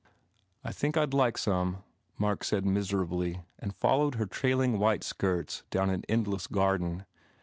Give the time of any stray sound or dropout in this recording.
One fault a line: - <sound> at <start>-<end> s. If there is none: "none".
none